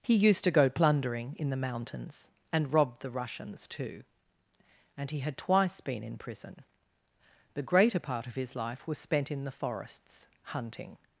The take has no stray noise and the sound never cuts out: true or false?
true